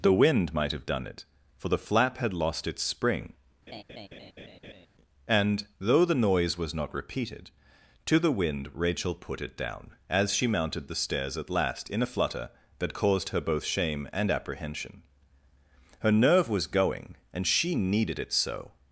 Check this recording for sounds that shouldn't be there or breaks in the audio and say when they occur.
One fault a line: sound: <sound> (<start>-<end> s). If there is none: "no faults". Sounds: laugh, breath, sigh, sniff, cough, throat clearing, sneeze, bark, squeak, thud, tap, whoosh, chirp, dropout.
sound: laugh (3.7-4.9 s)